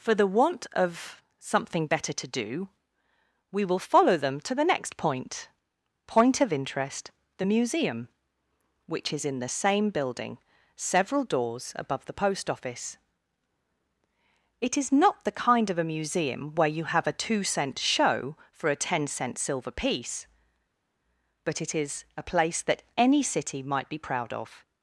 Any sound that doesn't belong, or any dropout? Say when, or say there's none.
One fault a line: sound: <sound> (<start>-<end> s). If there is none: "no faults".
no faults